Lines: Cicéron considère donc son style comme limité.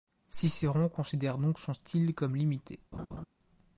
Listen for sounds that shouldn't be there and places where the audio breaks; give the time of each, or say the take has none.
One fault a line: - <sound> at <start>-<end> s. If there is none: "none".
- laugh at 2.9-3.2 s